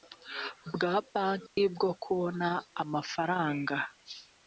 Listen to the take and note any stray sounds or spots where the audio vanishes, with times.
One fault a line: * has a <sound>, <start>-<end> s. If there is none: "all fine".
* has a dropout, 1.5-1.6 s